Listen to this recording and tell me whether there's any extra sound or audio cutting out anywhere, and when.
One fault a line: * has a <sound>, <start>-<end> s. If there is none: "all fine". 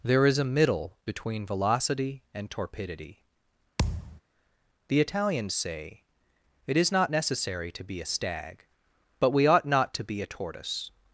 * has a thud, 3.8-4.2 s